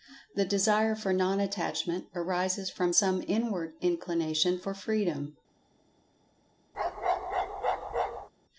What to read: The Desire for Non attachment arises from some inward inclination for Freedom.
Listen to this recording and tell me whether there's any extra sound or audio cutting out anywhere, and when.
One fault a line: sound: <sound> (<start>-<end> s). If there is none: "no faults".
sound: bark (6.7-8.3 s)